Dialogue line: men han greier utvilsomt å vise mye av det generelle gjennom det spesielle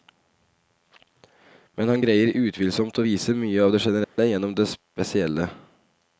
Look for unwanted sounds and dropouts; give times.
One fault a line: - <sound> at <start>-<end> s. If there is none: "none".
- dropout at 4.0-4.2 s